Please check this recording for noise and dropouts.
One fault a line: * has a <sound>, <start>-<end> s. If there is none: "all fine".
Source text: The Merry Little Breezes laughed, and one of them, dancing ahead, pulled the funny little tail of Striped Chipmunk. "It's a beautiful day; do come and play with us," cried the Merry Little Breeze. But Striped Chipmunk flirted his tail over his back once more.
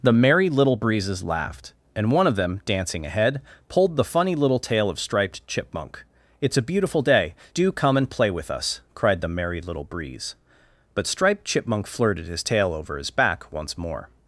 all fine